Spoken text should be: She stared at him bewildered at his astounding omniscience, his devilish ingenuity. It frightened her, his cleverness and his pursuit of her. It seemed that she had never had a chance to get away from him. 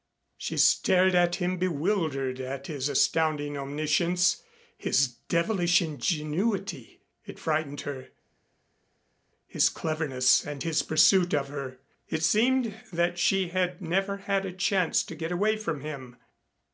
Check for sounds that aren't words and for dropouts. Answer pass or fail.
pass